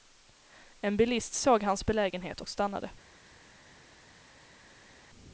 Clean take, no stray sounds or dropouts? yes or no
yes